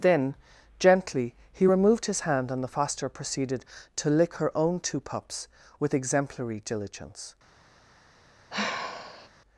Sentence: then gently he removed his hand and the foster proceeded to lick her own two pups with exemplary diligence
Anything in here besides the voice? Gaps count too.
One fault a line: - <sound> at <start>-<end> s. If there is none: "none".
- sigh at 8.5-9.3 s